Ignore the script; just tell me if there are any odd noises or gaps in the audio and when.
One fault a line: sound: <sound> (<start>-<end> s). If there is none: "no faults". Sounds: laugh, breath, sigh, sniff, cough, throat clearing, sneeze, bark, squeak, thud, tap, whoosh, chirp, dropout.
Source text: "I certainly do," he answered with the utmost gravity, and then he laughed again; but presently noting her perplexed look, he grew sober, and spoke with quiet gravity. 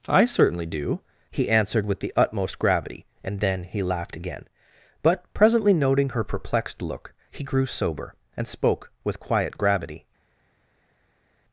no faults